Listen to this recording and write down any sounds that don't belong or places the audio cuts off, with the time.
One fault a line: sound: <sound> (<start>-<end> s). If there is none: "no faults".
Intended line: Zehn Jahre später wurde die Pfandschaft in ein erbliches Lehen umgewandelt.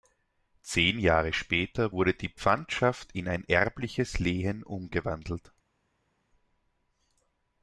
no faults